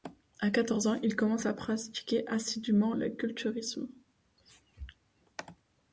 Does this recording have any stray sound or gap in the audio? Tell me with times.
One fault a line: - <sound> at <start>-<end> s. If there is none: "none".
none